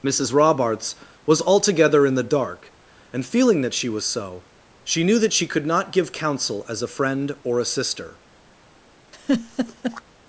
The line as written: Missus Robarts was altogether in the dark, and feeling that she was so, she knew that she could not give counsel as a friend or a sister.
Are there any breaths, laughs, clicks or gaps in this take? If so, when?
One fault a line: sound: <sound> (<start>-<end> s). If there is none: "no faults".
sound: laugh (9.1-10.0 s)